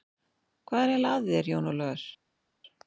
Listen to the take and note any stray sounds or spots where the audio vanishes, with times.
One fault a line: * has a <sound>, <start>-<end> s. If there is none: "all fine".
all fine